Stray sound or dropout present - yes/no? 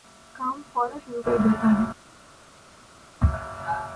no